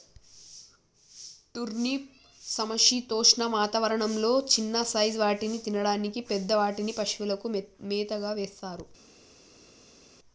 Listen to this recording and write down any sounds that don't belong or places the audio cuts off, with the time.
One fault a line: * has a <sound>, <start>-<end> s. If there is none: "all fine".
all fine